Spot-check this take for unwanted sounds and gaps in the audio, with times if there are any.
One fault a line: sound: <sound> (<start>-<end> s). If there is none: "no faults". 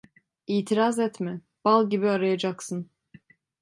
no faults